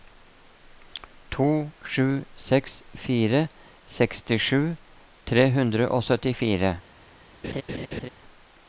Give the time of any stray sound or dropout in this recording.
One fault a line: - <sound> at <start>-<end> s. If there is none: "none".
- laugh at 7.4-8.1 s